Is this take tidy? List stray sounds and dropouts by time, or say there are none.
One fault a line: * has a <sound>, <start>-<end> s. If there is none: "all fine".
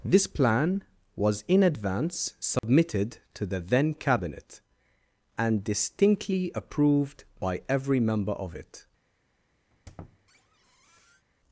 * has a dropout, 2.6-2.6 s
* has a squeak, 9.7-11.3 s